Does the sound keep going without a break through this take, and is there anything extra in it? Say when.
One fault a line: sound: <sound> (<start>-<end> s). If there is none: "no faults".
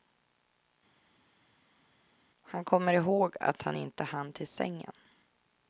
no faults